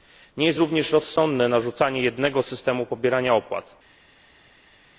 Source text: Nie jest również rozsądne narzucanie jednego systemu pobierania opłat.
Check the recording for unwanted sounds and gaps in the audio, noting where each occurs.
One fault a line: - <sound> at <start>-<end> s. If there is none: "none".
none